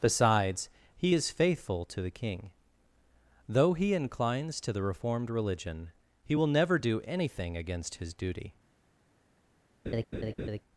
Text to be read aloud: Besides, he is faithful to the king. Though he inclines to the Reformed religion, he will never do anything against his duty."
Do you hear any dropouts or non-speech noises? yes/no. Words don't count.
yes